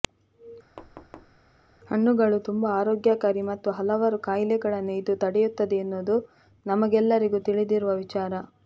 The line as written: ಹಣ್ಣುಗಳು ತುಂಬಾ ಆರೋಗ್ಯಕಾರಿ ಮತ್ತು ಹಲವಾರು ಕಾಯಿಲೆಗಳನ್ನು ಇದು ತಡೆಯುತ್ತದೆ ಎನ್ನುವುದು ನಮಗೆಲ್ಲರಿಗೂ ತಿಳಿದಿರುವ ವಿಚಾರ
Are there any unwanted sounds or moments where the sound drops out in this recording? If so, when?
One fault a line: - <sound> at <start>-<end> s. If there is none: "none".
- thud at 0.8-1.4 s